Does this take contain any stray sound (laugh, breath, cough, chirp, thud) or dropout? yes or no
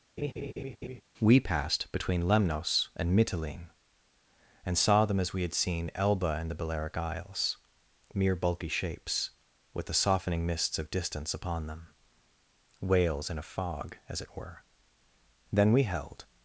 yes